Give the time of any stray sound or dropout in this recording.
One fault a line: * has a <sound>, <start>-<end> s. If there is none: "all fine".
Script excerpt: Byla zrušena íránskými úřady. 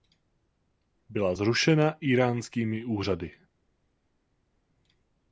all fine